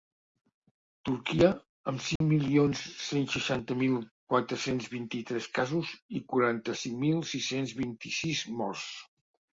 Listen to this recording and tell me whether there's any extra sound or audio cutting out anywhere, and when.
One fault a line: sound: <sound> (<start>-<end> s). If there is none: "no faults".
sound: dropout (2.2-2.2 s)